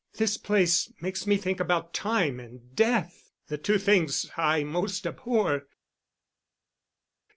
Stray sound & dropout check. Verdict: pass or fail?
pass